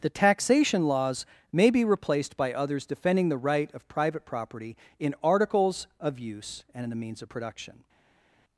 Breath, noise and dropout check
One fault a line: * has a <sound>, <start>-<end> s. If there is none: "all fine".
all fine